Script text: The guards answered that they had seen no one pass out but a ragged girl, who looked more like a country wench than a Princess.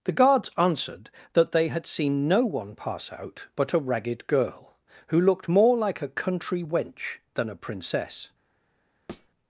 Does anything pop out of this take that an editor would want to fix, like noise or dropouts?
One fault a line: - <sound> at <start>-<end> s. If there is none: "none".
- thud at 9.1-9.3 s